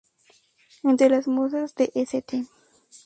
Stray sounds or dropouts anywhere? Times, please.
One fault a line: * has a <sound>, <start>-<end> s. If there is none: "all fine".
all fine